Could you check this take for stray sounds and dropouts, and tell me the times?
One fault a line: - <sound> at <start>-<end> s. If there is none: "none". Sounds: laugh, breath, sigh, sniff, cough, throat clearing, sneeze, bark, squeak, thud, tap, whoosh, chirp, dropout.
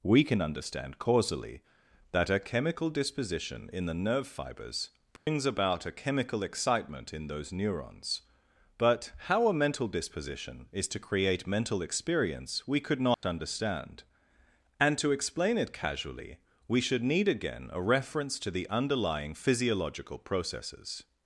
- dropout at 5.2-5.3 s
- dropout at 13.1-13.2 s